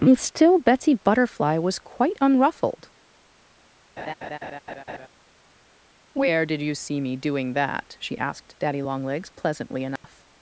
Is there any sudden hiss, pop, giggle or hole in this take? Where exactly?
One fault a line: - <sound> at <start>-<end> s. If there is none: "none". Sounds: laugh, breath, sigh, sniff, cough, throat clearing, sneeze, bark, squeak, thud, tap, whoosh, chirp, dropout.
- laugh at 4.0-5.1 s
- dropout at 10.0-10.0 s